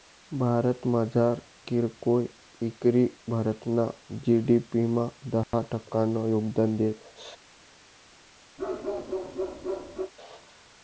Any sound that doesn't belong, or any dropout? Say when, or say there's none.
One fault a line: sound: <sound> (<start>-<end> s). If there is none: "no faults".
sound: dropout (5.4-5.5 s)
sound: bark (8.6-10.1 s)